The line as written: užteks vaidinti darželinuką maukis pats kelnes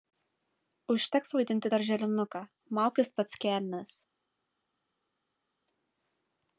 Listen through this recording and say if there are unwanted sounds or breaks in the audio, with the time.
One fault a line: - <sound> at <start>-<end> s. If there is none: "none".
none